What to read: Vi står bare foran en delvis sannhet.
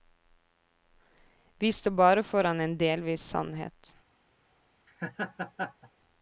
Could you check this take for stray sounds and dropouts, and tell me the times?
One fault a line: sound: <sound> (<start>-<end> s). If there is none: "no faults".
sound: laugh (4.9-5.9 s)